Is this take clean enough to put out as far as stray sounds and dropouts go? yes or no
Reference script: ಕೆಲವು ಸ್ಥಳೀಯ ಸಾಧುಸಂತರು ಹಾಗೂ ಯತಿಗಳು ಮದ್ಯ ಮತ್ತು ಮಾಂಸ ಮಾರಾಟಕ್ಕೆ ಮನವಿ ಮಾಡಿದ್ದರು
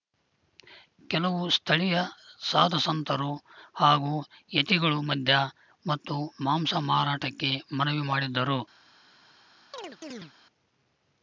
no